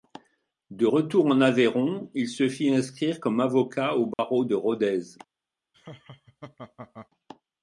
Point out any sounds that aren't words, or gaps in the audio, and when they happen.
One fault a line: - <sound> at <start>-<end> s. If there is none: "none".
- dropout at 4.1-4.2 s
- laugh at 5.7-7.1 s